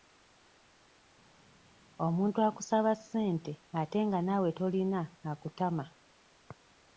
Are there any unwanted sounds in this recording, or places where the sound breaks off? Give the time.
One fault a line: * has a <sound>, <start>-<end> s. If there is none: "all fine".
all fine